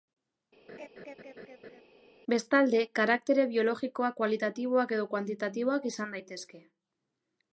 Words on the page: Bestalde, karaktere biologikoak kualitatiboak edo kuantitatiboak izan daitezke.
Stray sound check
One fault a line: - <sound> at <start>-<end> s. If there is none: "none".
- laugh at 0.7-1.8 s